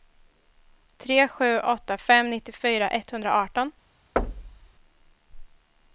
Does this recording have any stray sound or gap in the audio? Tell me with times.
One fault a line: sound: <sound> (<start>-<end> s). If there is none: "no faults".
sound: thud (4.2-4.7 s)